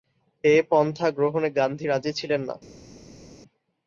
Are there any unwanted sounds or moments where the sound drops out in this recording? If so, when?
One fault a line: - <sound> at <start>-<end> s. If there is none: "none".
none